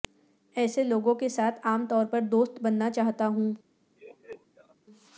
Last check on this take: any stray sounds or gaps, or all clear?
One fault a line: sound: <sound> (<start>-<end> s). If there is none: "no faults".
sound: laugh (4.0-4.8 s)